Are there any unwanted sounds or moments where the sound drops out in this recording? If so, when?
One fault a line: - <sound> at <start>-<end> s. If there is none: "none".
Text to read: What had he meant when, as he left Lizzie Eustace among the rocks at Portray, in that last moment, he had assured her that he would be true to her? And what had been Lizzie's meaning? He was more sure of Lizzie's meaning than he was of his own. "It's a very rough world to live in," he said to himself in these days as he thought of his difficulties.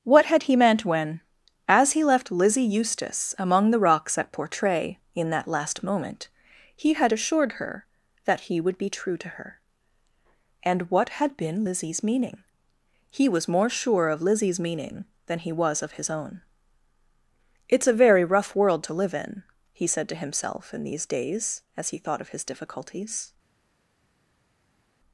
none